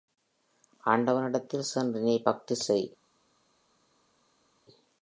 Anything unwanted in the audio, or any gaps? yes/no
no